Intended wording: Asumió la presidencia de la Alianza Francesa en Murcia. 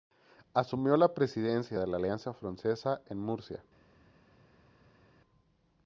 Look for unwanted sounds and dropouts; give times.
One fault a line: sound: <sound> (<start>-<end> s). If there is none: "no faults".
no faults